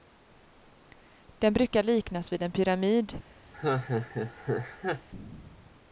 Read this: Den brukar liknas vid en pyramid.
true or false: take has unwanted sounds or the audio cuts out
true